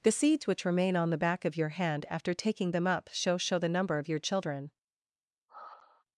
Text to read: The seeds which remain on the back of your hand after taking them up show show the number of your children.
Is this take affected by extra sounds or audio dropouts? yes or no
yes